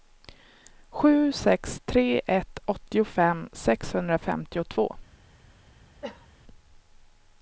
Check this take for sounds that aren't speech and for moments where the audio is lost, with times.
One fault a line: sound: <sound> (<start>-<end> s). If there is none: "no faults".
sound: cough (6.0-6.3 s)